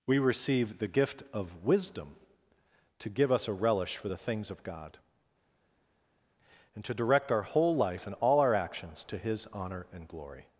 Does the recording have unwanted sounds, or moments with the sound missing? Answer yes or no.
no